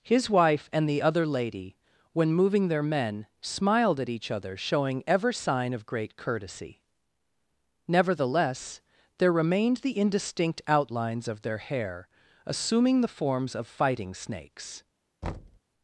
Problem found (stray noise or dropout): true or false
true